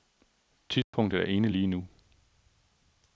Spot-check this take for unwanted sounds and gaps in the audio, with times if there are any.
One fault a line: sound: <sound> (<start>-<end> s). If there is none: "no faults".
sound: dropout (0.8-0.9 s)